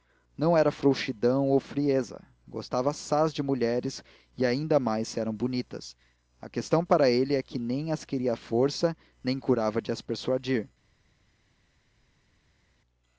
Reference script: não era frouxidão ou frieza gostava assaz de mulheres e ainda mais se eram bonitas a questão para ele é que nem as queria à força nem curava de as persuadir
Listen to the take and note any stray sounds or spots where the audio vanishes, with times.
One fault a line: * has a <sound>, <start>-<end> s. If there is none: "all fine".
all fine